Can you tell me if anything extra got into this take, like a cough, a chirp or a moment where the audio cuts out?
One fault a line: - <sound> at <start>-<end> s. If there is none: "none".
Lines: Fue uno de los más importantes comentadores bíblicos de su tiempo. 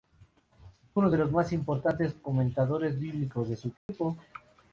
- dropout at 3.8-3.9 s